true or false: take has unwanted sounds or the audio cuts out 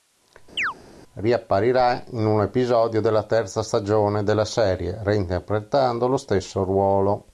true